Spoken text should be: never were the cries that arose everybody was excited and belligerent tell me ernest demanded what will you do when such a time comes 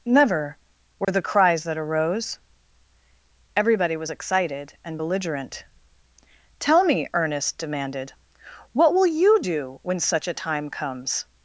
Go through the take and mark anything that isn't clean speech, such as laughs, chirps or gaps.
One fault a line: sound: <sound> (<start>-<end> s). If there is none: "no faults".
sound: dropout (1.0-1.1 s)